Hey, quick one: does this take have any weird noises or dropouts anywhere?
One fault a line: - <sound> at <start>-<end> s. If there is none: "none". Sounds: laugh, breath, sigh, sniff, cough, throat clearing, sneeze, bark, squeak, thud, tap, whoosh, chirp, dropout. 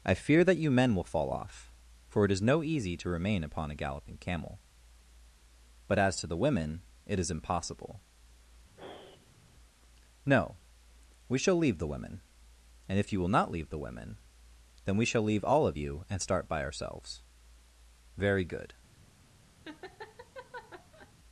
- sigh at 8.8-9.5 s
- laugh at 19.6-21.1 s